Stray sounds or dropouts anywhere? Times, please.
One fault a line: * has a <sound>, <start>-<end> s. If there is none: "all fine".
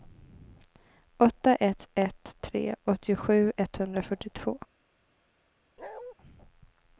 * has a bark, 5.8-6.1 s